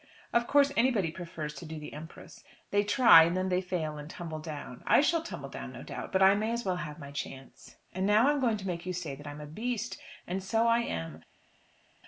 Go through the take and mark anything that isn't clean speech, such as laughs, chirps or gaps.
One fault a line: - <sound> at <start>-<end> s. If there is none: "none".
none